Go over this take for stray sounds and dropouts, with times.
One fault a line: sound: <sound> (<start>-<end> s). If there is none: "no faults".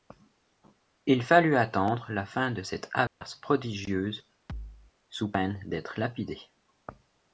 sound: dropout (3.1-3.2 s)
sound: thud (4.5-4.9 s)